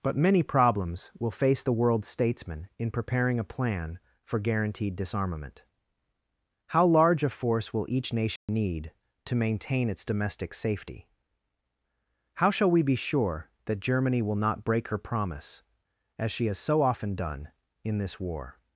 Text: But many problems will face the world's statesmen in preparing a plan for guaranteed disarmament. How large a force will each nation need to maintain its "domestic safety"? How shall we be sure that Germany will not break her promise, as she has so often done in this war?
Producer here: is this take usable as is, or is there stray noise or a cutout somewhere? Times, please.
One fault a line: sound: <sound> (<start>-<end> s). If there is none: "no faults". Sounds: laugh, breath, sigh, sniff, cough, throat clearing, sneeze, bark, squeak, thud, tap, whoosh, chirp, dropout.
sound: dropout (8.4-8.5 s)